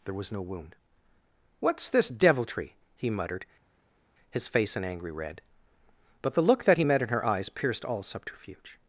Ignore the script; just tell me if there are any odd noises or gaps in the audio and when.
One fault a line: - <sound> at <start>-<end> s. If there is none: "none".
none